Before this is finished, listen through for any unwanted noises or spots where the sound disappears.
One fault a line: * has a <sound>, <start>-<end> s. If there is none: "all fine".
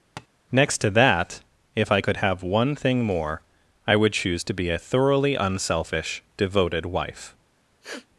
* has a tap, 0.2-0.3 s
* has a sniff, 7.8-8.1 s